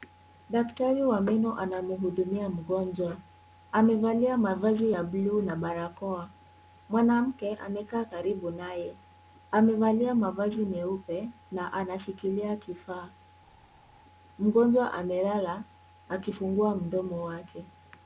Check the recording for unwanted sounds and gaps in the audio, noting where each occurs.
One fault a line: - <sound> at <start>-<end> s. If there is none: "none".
none